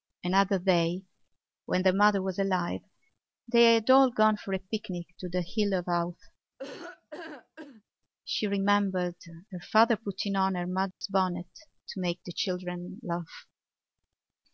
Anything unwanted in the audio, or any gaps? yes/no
yes